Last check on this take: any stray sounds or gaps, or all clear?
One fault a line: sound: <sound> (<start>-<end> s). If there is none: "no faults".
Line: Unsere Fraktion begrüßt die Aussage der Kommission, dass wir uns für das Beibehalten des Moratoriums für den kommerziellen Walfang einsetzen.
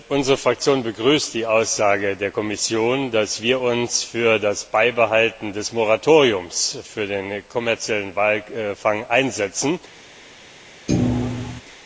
sound: thud (10.9-11.6 s)